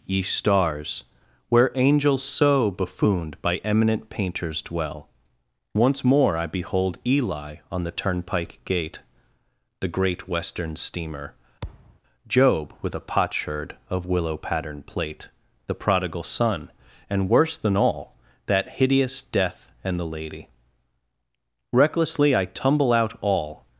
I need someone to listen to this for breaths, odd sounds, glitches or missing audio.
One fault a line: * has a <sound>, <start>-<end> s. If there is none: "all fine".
* has a thud, 11.6-12.0 s